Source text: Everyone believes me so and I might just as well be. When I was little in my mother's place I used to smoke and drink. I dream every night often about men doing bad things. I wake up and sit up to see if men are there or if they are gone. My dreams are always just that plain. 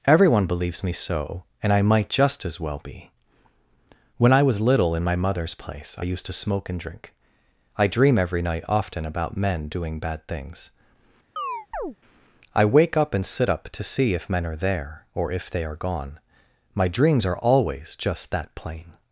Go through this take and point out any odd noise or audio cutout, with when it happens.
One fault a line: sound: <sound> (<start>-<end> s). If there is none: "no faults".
sound: chirp (11.4-12.0 s)